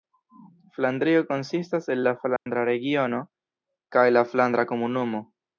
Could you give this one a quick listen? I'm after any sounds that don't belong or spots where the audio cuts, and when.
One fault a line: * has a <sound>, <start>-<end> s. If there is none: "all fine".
* has a dropout, 2.4-2.5 s